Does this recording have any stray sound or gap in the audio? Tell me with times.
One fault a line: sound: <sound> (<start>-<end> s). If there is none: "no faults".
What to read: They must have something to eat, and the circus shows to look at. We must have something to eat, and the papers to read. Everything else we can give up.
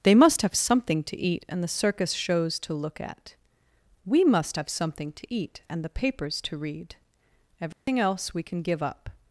sound: dropout (7.7-7.9 s)